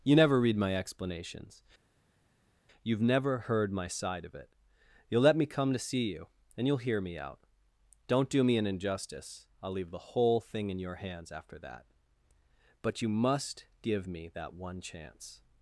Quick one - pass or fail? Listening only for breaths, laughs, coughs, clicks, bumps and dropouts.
pass